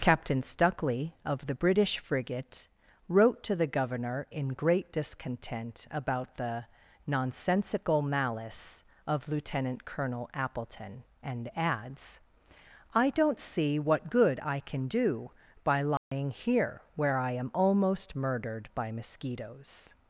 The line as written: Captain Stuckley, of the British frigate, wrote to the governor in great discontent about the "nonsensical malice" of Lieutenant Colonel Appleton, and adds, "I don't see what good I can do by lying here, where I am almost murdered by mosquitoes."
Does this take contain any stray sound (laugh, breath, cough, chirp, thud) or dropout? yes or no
yes